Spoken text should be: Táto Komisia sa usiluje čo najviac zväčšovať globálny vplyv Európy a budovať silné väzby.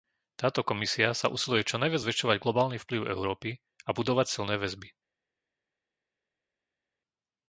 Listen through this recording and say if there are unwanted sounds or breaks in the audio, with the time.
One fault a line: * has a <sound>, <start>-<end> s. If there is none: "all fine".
all fine